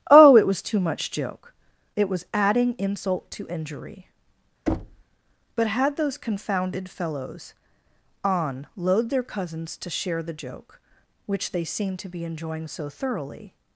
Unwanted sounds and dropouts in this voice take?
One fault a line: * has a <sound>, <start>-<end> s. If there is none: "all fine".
* has a thud, 4.7-5.0 s